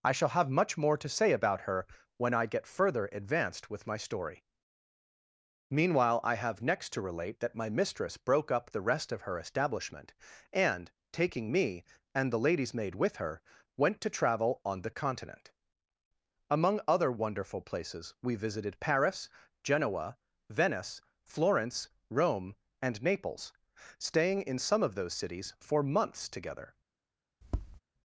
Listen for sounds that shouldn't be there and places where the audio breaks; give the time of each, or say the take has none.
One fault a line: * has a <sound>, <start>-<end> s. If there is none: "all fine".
* has a tap, 27.4-27.8 s